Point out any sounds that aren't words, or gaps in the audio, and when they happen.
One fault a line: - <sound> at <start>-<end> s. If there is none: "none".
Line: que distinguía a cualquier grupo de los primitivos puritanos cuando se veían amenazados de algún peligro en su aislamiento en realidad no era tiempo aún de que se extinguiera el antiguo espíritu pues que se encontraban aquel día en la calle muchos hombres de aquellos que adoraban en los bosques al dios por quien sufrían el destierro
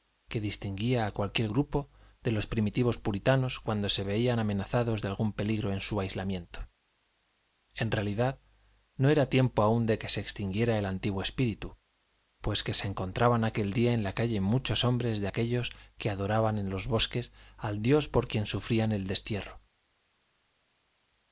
none